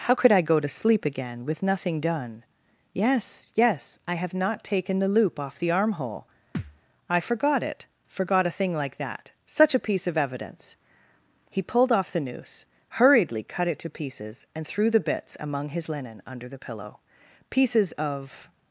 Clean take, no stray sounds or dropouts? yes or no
no